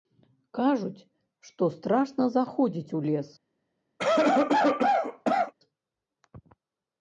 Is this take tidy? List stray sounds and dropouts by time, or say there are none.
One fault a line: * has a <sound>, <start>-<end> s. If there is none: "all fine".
* has a cough, 4.0-5.5 s